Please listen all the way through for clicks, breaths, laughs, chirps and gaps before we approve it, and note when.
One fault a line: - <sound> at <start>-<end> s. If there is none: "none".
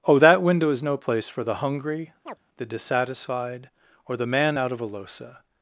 - chirp at 2.3-2.4 s